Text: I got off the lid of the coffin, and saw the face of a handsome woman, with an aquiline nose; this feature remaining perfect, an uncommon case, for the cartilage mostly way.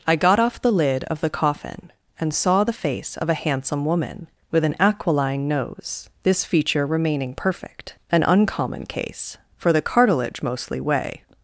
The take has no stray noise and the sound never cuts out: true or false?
true